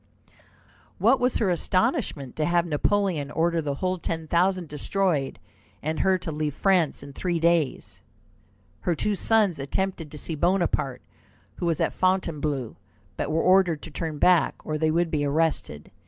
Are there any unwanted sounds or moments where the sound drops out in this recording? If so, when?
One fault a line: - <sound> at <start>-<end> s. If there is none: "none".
none